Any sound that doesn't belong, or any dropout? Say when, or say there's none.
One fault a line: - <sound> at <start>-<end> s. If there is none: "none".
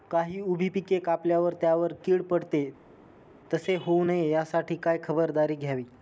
none